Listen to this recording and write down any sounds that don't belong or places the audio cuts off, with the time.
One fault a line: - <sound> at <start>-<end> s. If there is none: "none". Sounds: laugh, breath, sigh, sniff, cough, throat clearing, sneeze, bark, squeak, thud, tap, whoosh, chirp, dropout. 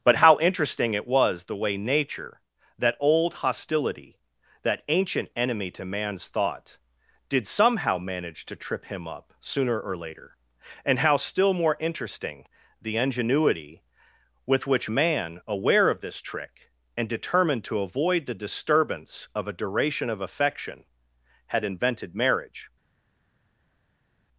none